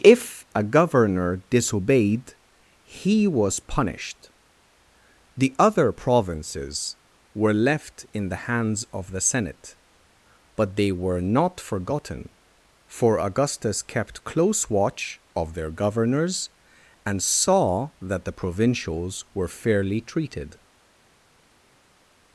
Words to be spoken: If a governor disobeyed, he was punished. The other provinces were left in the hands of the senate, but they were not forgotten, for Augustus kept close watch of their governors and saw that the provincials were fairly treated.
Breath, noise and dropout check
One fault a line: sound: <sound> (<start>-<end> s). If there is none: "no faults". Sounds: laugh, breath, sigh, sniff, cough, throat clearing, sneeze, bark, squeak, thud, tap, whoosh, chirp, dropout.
no faults